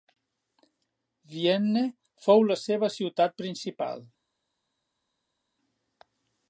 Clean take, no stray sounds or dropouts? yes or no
yes